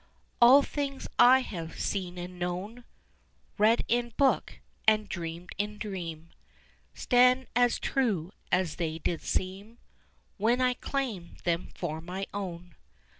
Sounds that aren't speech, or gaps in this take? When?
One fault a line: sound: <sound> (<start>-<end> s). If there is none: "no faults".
no faults